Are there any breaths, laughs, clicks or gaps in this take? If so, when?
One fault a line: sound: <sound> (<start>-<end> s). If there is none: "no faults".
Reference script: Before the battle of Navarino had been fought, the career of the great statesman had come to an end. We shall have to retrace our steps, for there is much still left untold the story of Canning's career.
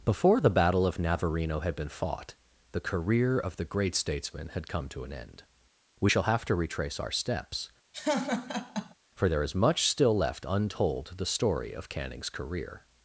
sound: laugh (7.9-8.9 s)